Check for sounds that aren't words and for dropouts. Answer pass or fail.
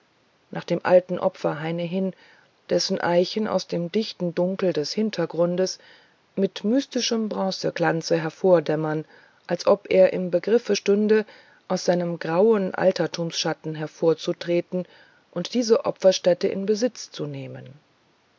pass